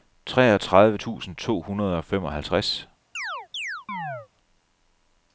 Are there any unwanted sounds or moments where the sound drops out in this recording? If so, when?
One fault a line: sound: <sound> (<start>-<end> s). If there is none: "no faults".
sound: chirp (3.1-4.3 s)